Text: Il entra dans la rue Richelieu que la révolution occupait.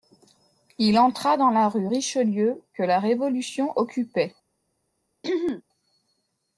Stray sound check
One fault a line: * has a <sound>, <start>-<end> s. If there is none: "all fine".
* has a throat clearing, 5.2-5.6 s